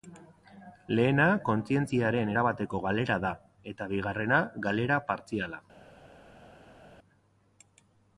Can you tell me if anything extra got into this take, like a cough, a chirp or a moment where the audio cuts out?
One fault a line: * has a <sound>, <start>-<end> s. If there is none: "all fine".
all fine